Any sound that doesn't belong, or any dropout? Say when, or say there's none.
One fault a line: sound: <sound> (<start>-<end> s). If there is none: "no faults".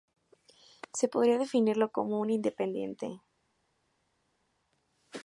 no faults